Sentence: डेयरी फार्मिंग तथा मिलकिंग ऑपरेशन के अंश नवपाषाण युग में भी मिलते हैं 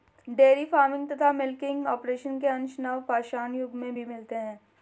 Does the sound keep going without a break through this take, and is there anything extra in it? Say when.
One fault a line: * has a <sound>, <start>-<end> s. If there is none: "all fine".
all fine